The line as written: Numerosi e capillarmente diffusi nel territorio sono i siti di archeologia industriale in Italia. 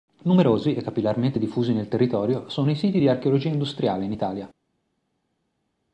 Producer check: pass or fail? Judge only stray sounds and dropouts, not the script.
pass